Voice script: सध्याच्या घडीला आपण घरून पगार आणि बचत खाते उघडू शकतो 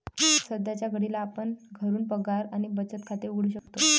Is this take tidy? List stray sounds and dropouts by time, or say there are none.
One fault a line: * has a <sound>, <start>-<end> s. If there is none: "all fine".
* has a dropout, 3.6-3.7 s